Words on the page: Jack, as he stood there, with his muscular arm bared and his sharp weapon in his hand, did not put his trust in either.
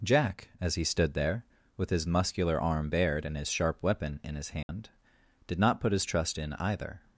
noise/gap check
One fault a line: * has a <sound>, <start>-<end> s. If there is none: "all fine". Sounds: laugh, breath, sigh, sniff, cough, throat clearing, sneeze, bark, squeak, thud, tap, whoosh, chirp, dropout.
* has a dropout, 4.6-4.7 s